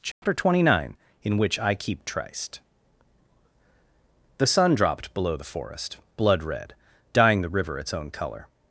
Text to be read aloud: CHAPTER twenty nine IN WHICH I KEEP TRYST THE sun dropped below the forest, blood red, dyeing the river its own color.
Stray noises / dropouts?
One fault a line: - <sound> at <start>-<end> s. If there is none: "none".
- dropout at 0.1-0.2 s